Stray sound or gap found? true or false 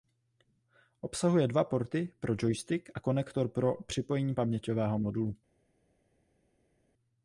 false